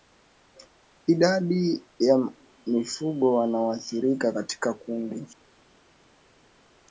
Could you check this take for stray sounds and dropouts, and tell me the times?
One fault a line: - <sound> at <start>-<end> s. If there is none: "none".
none